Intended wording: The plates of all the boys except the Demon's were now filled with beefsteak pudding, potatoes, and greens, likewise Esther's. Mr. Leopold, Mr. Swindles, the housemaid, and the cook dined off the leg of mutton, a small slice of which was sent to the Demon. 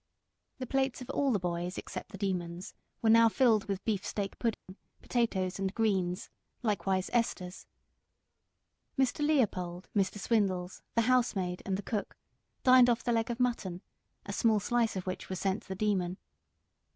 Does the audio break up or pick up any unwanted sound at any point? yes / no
yes